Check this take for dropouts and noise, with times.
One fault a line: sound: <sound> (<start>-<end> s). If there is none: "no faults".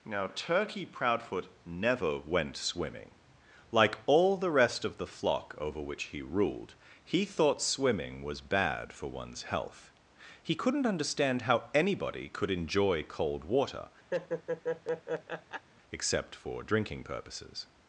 sound: laugh (14.1-15.7 s)